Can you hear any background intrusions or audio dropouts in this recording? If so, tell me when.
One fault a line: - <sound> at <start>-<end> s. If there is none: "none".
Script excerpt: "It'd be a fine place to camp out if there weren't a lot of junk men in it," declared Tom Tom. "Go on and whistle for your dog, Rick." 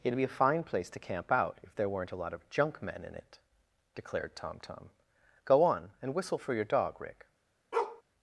- bark at 7.7-8.0 s